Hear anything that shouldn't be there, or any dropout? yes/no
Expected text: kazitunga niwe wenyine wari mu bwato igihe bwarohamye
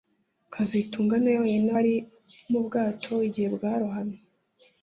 no